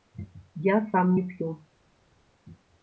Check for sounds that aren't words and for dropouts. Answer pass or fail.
pass